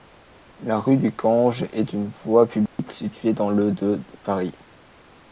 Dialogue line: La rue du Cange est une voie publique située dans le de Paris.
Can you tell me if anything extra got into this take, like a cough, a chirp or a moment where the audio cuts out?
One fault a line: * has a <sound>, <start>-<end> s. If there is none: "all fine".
* has a dropout, 2.7-2.8 s